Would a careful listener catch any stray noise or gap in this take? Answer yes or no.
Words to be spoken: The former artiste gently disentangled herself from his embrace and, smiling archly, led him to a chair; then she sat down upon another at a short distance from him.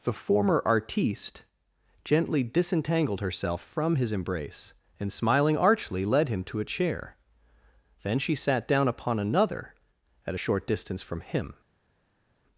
no